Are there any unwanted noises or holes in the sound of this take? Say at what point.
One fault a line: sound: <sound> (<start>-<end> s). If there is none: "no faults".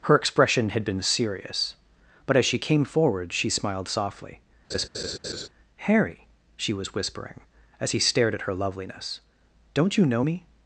sound: laugh (4.7-5.5 s)